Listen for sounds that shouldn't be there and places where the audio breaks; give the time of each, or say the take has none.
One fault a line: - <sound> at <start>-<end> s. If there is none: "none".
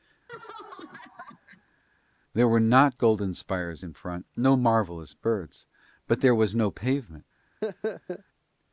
- laugh at 0.3-1.8 s
- laugh at 7.6-8.2 s